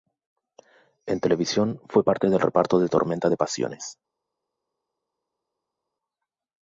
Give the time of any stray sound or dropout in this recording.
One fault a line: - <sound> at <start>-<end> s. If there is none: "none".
none